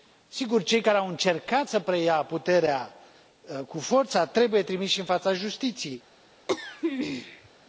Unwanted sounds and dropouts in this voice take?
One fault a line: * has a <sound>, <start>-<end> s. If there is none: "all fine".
* has a throat clearing, 6.5-7.5 s